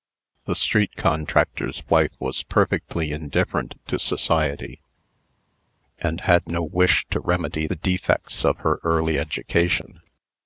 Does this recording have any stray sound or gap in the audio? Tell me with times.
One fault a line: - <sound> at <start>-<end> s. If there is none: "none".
none